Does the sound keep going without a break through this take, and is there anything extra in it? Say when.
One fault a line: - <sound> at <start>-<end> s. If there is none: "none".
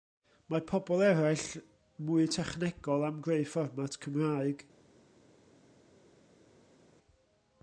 none